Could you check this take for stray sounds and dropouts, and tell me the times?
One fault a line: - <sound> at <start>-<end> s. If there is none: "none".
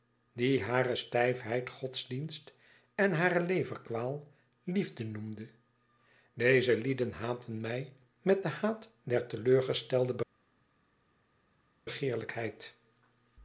none